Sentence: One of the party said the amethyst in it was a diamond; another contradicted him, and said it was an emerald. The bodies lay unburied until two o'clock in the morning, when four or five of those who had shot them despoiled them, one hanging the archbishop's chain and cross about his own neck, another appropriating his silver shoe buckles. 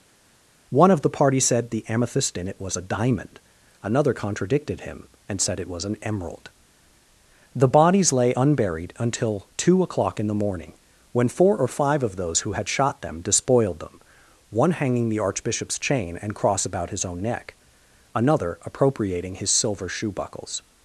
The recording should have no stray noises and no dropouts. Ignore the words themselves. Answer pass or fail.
pass